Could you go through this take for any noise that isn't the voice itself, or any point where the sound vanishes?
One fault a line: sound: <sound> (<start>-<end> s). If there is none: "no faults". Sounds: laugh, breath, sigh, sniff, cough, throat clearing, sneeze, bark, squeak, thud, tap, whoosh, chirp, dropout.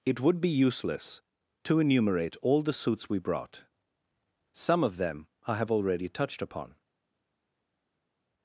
no faults